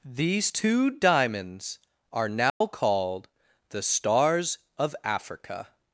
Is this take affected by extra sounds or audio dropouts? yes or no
yes